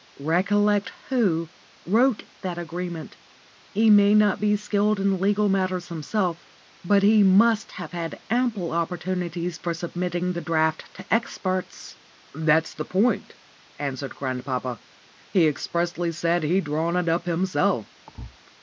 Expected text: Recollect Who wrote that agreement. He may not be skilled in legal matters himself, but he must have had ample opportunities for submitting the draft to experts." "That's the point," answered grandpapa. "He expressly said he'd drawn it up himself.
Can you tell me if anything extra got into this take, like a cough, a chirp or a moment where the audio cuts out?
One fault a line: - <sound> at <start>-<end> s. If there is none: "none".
- thud at 18.1-18.4 s